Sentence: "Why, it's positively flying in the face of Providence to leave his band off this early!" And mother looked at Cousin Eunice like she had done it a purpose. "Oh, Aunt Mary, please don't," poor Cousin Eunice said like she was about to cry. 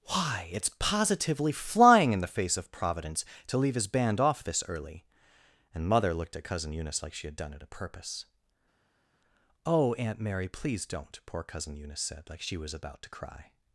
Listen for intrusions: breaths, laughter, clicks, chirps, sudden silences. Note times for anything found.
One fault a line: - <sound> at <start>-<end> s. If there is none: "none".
none